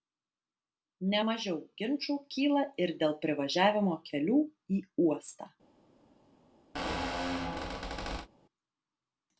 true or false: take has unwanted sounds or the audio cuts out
true